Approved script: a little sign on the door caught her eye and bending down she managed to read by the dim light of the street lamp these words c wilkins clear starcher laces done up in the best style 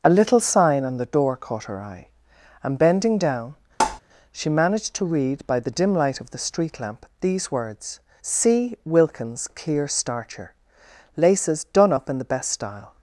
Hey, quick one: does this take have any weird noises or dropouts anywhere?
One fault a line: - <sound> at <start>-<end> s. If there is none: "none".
- tap at 3.8-4.0 s